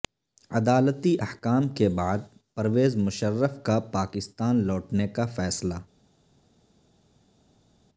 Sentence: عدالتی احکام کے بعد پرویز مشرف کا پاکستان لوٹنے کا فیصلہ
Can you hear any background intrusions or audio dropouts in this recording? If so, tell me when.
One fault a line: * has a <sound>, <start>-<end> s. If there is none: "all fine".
all fine